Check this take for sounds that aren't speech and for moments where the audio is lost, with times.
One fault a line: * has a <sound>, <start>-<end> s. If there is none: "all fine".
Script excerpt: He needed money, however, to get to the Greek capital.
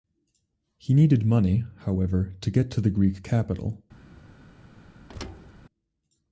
* has a thud, 5.1-5.5 s